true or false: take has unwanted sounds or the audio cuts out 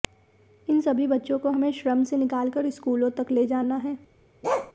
true